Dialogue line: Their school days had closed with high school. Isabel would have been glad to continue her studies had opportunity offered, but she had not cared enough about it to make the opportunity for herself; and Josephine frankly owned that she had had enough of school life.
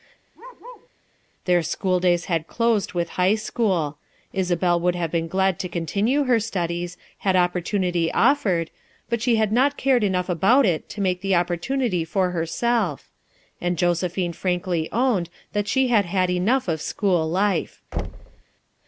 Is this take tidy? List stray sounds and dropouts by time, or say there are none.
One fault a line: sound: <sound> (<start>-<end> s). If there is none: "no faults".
sound: bark (0.3-0.9 s)
sound: thud (17.9-18.4 s)